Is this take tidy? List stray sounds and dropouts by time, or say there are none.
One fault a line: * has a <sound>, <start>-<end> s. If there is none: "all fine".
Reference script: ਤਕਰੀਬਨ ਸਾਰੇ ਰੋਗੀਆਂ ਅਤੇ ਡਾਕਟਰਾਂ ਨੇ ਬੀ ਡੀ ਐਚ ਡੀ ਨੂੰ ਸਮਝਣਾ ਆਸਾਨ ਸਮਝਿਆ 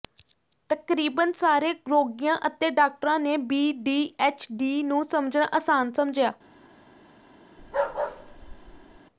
* has a bark, 7.6-9.0 s